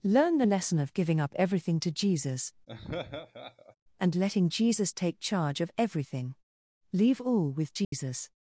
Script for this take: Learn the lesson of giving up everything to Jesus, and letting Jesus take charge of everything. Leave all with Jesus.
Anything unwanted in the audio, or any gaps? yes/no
yes